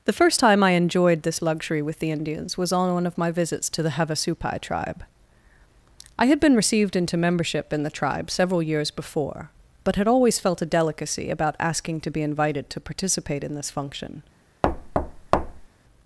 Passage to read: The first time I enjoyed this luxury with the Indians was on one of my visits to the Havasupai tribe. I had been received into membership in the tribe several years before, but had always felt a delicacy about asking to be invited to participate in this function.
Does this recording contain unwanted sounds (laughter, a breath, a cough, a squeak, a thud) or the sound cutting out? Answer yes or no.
yes